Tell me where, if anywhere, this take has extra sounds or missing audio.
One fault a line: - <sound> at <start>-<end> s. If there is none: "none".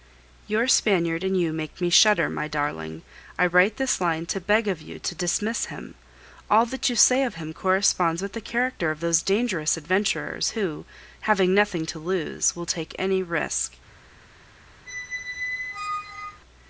- squeak at 14.9-16.4 s